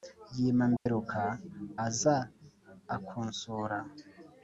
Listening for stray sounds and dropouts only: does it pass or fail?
fail